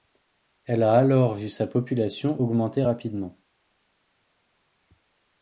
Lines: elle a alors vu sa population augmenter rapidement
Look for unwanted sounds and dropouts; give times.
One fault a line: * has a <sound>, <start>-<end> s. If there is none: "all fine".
all fine